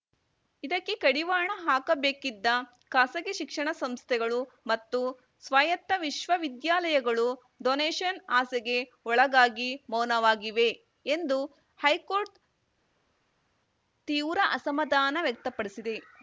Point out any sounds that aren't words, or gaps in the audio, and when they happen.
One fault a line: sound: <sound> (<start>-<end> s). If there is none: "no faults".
no faults